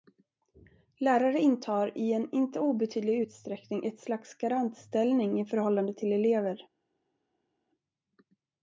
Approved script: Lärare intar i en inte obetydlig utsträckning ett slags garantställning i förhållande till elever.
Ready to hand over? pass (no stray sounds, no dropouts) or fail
pass